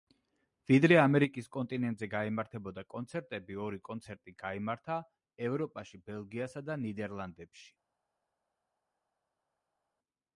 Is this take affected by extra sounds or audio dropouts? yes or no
no